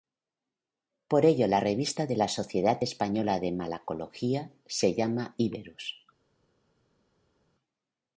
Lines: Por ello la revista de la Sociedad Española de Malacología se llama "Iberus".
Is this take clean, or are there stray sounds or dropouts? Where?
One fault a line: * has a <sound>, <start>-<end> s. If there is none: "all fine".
all fine